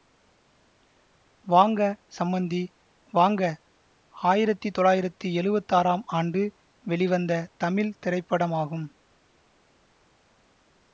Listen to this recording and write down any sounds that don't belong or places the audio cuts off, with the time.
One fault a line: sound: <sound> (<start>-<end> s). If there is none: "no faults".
no faults